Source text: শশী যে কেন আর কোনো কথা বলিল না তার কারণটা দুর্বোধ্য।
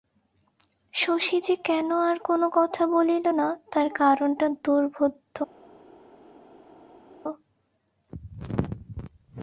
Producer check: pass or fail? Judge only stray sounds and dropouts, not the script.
pass